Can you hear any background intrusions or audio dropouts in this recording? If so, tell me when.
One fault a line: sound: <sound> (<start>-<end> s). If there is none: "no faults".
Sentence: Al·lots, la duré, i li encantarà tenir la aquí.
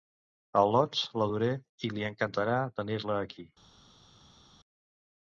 no faults